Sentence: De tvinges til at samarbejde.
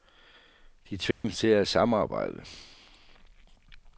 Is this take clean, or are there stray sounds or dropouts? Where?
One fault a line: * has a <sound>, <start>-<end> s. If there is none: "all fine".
* has a dropout, 1.1-1.2 s